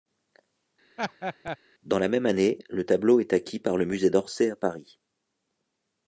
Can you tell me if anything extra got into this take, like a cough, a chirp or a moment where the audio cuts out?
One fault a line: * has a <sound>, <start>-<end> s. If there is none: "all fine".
* has a laugh, 1.0-1.6 s